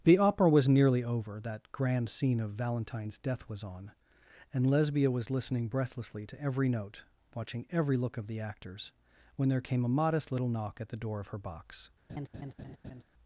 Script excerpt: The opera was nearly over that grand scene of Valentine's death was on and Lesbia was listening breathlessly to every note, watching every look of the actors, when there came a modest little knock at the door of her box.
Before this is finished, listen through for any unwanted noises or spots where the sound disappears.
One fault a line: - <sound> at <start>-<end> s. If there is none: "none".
- laugh at 12.1-13.0 s